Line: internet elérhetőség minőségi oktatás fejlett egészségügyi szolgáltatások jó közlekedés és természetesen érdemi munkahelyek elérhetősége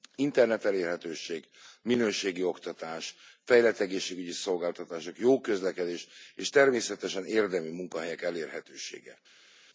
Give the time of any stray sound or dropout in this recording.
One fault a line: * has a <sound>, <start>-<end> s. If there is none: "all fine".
all fine